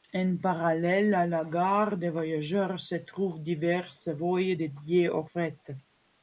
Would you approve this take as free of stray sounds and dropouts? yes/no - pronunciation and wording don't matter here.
yes